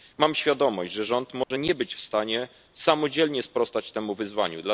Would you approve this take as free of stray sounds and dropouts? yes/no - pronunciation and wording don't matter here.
no